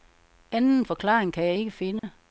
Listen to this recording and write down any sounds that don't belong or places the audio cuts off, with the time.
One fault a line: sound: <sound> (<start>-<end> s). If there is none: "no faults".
sound: dropout (2.0-2.0 s)